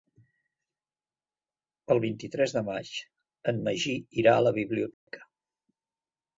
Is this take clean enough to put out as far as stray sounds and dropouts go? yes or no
no